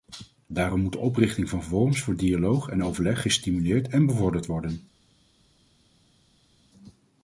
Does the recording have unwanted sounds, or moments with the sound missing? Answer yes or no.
no